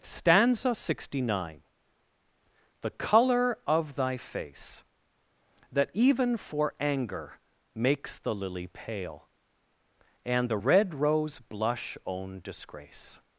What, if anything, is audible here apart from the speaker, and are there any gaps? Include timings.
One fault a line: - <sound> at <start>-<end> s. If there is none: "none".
none